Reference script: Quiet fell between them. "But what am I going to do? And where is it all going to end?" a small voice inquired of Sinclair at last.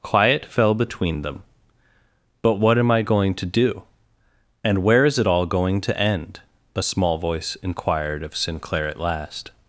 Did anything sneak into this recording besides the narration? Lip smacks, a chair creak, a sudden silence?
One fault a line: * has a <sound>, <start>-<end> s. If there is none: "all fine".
all fine